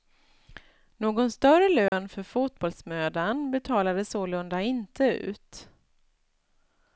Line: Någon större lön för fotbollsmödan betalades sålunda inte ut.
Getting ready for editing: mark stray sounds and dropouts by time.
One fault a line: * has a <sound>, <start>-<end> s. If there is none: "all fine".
* has a dropout, 1.9-1.9 s